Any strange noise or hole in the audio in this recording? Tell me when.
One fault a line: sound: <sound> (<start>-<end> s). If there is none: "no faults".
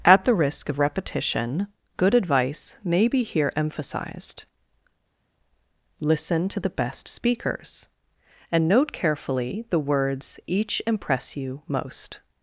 no faults